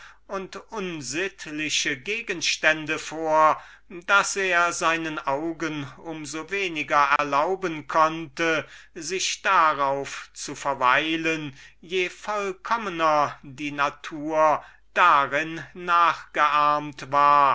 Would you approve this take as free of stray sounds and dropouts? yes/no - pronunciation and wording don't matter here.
no